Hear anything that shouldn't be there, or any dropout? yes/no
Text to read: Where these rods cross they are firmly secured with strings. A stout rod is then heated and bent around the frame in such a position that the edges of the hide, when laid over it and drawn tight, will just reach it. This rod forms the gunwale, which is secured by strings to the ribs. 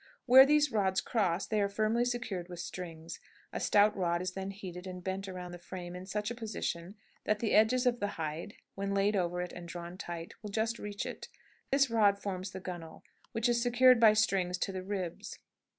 yes